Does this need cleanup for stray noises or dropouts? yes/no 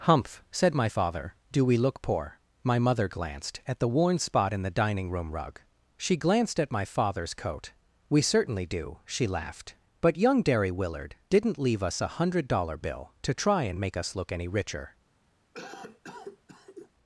yes